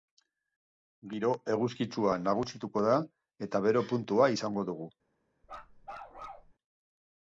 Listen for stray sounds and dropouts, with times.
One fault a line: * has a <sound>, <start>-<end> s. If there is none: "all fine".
* has a bark, 5.4-6.5 s